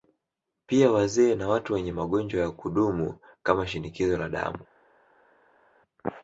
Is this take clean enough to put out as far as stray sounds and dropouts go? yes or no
yes